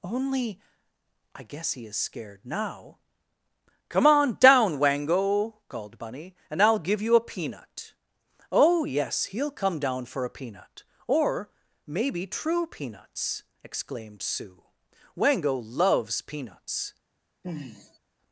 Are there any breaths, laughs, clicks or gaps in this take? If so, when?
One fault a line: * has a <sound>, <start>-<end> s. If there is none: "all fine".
* has a sigh, 17.4-18.0 s